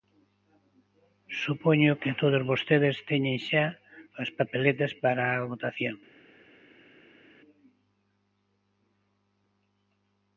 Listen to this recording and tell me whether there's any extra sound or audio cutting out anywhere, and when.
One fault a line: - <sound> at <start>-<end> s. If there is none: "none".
none